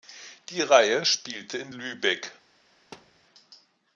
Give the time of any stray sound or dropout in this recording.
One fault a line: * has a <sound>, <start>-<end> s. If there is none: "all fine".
* has a thud, 2.9-3.3 s